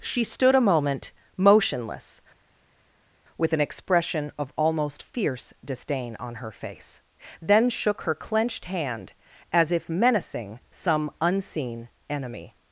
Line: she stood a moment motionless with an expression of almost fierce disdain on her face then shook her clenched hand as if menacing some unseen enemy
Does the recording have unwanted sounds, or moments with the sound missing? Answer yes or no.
no